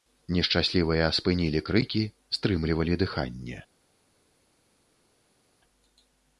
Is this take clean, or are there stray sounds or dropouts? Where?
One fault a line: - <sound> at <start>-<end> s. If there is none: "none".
none